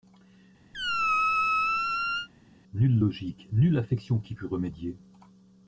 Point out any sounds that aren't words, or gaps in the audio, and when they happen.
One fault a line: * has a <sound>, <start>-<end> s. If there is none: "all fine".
* has a squeak, 0.7-2.3 s